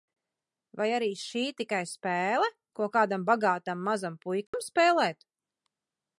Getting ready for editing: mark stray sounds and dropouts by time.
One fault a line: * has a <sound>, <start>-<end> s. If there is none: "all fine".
* has a dropout, 4.5-4.5 s